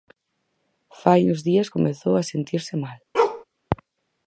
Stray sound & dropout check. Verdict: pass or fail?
fail